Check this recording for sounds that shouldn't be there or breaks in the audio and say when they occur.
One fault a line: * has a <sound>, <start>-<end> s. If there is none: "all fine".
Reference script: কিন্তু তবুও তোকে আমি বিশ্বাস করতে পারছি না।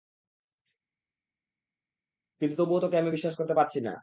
all fine